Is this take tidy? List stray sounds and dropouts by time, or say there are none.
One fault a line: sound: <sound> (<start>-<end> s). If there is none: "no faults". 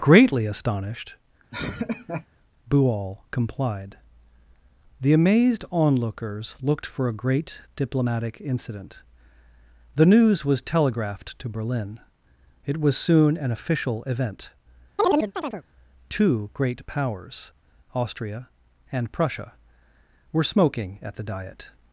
sound: laugh (1.5-2.3 s)
sound: chirp (15.0-15.6 s)